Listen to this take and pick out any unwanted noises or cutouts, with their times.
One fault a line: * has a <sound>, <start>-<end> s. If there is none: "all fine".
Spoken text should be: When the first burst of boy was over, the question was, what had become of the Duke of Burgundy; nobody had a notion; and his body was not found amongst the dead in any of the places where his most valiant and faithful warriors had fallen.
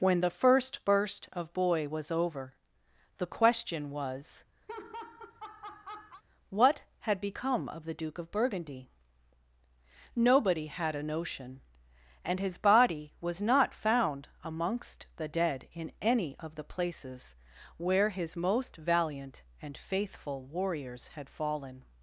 * has a laugh, 4.7-6.2 s